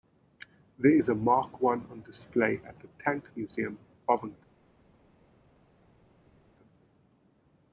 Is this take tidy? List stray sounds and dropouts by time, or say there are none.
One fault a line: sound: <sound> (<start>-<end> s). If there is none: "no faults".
no faults